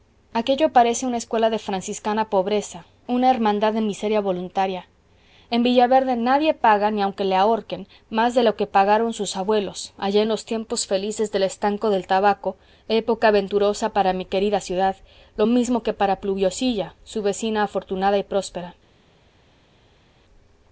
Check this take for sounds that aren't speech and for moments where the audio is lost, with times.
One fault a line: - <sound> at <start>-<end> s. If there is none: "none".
none